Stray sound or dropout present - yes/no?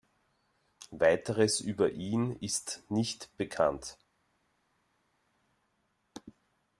no